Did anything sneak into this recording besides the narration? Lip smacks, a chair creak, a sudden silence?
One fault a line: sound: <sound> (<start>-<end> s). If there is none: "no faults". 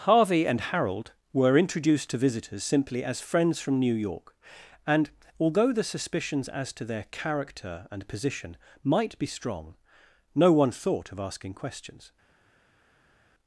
no faults